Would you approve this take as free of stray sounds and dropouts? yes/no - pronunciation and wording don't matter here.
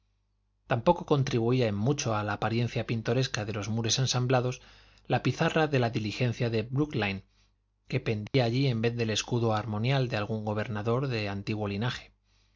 no